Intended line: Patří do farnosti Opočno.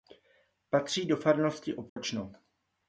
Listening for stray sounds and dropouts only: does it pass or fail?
fail